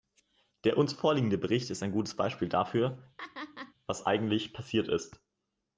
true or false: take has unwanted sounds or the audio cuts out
true